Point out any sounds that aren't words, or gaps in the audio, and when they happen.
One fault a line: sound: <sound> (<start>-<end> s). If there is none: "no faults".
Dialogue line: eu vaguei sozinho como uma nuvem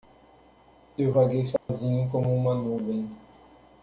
sound: dropout (1.6-1.7 s)